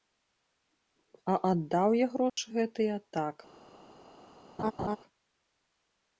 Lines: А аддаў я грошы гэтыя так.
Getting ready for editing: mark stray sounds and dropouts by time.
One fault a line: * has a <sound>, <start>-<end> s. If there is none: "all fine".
* has a dropout, 2.3-2.4 s
* has a laugh, 4.6-5.0 s